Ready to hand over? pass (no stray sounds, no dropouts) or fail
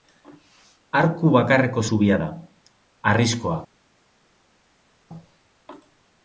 pass